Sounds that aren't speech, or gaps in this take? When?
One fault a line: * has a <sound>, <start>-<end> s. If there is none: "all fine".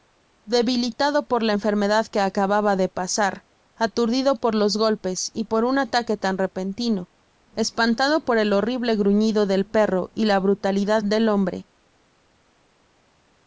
all fine